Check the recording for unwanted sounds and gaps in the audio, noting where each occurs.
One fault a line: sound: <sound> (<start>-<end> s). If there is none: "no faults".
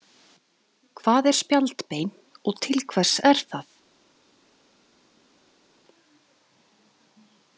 no faults